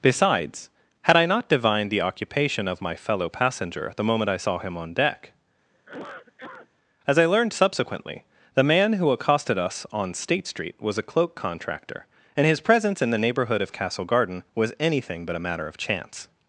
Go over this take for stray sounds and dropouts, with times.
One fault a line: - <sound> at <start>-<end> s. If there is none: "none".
- cough at 5.7-6.7 s